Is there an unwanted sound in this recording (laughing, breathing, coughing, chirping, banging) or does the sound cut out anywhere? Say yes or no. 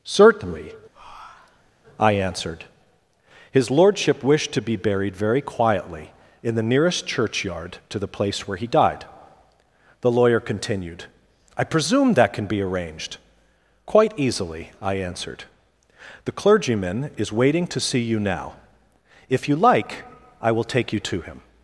yes